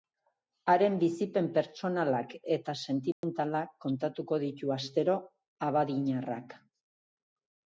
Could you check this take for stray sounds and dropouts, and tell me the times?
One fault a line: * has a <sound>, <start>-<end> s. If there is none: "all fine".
* has a dropout, 3.1-3.2 s